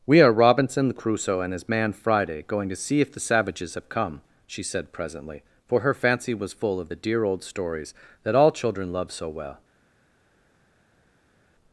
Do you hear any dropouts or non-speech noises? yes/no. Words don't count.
no